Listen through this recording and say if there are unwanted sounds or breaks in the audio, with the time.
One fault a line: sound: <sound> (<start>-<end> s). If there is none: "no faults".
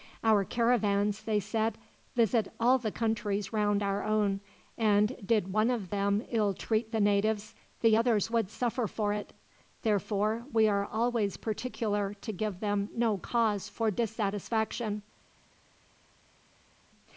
no faults